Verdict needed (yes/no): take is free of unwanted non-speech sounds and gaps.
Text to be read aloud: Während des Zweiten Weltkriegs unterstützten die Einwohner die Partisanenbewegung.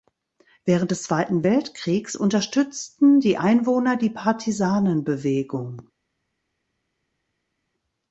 yes